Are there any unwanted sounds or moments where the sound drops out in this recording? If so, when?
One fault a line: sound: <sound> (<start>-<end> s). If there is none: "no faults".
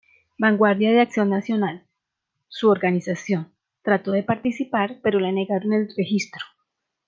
no faults